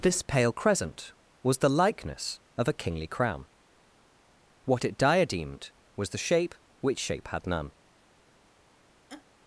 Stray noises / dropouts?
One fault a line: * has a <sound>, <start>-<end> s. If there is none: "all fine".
* has a laugh, 9.1-9.3 s